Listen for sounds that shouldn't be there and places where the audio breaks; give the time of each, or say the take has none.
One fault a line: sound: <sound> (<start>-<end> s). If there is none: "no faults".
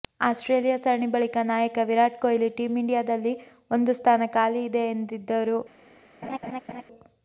sound: laugh (6.2-6.8 s)